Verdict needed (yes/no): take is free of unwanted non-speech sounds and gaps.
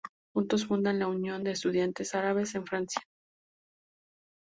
yes